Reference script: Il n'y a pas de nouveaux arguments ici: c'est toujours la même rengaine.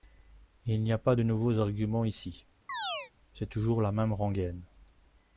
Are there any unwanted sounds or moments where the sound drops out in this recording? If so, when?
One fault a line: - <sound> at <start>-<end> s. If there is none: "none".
- chirp at 2.7-3.1 s